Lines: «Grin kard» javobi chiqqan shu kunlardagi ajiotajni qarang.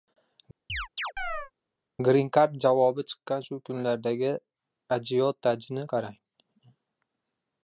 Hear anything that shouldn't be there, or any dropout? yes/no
yes